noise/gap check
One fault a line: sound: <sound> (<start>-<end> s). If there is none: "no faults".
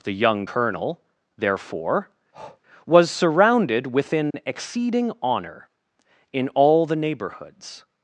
sound: breath (2.3-2.6 s)
sound: dropout (4.3-4.3 s)